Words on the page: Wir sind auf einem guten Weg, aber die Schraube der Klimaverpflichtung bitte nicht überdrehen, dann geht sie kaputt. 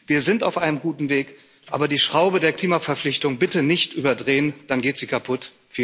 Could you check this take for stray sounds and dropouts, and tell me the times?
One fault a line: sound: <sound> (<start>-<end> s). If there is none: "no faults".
no faults